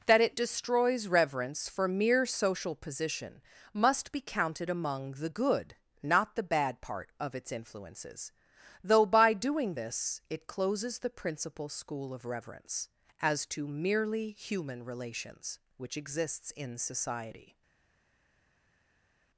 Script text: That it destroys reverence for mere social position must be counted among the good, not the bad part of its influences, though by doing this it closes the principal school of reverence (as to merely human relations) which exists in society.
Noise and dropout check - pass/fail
pass